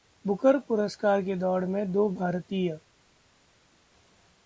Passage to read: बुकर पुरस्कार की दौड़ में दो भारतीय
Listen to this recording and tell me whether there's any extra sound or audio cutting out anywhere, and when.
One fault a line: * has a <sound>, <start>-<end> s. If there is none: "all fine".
all fine